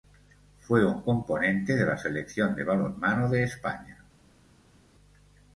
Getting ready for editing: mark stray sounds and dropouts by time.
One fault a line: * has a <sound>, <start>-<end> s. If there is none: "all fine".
all fine